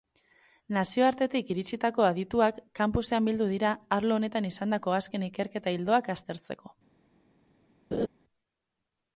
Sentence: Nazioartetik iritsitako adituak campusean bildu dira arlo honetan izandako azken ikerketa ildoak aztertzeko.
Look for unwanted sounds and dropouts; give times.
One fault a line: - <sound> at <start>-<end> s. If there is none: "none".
- laugh at 7.9-8.1 s